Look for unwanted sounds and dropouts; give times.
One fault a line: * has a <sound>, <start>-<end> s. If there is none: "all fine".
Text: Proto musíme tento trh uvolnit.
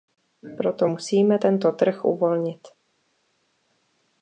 all fine